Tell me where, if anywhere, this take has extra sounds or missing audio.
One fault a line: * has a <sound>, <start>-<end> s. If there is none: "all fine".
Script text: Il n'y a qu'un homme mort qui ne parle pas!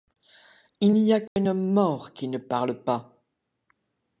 * has a dropout, 1.3-1.4 s